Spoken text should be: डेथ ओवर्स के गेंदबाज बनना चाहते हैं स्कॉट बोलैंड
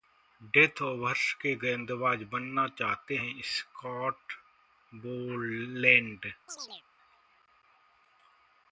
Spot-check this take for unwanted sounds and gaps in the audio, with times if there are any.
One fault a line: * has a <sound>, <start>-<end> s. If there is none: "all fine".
* has a chirp, 6.5-6.8 s